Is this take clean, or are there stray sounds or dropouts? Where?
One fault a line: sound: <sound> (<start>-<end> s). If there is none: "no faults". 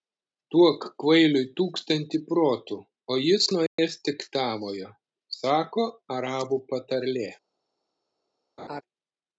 sound: dropout (3.7-3.8 s)
sound: laugh (8.6-8.8 s)